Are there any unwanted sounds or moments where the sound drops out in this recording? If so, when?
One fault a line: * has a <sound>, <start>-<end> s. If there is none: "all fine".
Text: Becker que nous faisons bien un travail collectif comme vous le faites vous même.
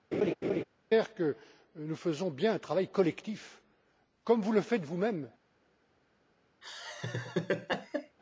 * has a laugh, 0.1-0.6 s
* has a laugh, 6.6-8.2 s